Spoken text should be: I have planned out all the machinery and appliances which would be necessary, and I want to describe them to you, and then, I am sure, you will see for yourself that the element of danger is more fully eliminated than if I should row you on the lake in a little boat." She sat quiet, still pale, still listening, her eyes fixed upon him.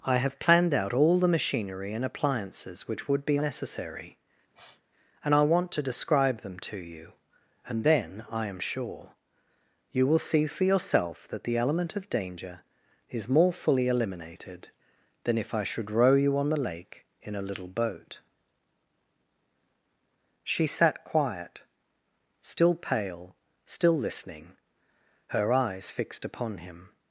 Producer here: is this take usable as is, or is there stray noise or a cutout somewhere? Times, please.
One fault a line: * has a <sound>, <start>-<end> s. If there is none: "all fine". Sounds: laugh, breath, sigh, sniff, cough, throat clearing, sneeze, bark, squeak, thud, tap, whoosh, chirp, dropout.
* has a sniff, 4.5-4.8 s